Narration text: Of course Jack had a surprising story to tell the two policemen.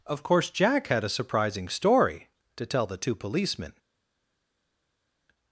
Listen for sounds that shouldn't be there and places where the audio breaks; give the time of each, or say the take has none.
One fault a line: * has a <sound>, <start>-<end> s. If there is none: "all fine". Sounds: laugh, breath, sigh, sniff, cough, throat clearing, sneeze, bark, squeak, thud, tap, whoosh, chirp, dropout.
all fine